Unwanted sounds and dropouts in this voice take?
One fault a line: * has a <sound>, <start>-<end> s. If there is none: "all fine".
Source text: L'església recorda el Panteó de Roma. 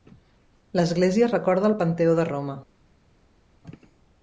all fine